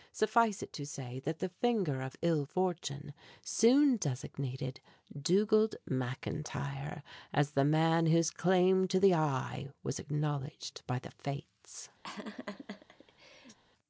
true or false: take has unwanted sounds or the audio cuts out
true